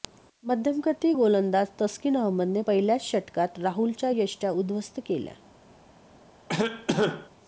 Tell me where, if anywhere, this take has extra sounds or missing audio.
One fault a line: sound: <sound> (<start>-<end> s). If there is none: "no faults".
sound: cough (6.5-7.3 s)